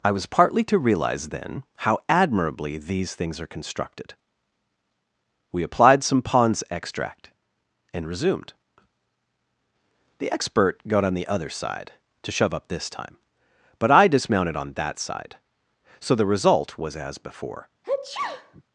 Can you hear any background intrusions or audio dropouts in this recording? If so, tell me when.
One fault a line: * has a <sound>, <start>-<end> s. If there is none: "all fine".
* has a sneeze, 17.8-18.6 s